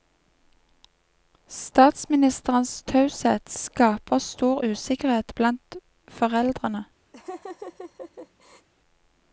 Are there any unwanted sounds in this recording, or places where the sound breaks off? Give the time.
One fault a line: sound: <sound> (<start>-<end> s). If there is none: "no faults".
sound: laugh (7.1-8.7 s)